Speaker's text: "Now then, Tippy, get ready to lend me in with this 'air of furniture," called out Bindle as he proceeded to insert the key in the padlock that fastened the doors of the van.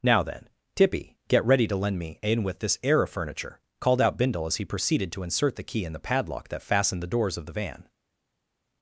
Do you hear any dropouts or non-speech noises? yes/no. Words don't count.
no